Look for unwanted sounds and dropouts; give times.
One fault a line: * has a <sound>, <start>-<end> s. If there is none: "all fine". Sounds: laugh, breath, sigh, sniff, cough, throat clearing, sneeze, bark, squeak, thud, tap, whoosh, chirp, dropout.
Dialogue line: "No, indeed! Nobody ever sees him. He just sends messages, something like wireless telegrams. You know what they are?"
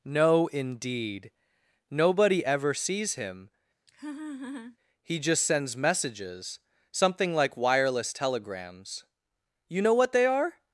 * has a laugh, 3.9-4.8 s